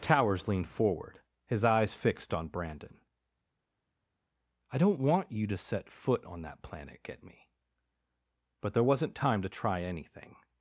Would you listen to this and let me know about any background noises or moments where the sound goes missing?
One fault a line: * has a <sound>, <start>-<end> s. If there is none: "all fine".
all fine